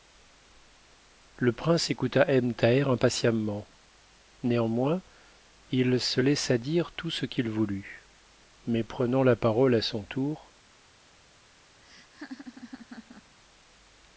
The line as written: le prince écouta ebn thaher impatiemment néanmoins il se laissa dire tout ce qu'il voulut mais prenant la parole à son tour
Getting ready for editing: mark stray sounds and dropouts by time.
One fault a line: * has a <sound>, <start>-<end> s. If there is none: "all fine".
* has a laugh, 11.8-13.3 s